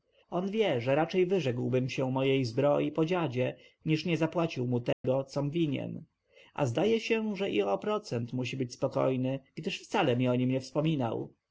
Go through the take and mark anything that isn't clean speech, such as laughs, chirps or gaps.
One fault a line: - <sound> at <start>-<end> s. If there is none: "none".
- dropout at 4.9-5.0 s